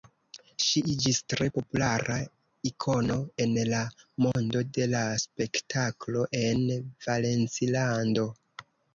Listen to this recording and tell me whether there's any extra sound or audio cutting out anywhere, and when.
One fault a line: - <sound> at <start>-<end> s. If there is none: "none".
- dropout at 4.3-4.4 s